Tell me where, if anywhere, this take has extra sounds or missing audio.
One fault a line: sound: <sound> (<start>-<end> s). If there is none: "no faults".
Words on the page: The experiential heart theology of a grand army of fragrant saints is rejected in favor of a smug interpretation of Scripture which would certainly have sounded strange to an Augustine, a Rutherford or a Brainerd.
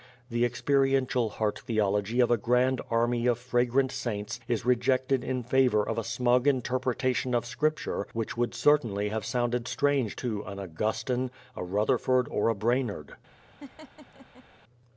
sound: laugh (13.6-14.4 s)